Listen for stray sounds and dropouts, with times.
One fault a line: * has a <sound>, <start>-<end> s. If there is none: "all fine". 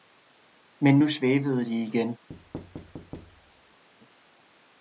* has a thud, 2.3-3.8 s